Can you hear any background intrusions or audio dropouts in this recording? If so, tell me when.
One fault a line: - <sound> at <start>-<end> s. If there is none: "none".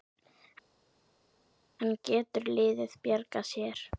none